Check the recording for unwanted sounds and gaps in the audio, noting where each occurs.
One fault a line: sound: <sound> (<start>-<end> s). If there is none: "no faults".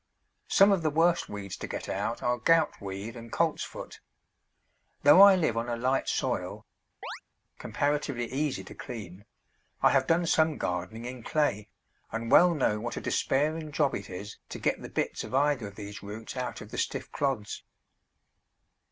sound: chirp (7.0-7.2 s)